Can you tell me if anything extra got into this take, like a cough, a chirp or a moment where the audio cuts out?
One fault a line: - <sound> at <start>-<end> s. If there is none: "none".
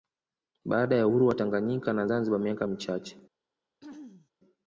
- throat clearing at 3.8-4.3 s